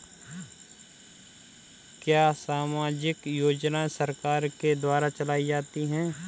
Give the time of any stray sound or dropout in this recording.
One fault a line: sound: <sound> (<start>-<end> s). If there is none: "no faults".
no faults